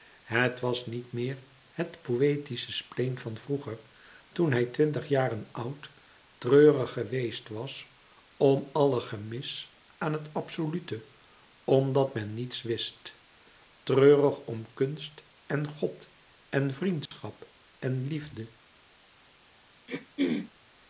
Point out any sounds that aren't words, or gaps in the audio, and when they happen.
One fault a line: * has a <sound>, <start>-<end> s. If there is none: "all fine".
* has a dropout, 17.1-17.1 s
* has a throat clearing, 19.9-20.5 s